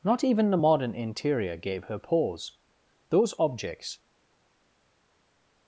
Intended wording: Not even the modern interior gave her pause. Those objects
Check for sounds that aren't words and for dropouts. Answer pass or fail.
pass